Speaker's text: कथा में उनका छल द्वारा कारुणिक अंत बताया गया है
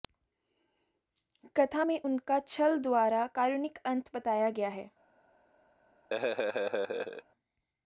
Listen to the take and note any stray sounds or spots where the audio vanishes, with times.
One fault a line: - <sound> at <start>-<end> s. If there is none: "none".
- laugh at 6.1-7.2 s